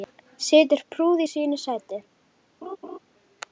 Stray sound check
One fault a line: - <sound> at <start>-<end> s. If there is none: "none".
- laugh at 2.6-3.0 s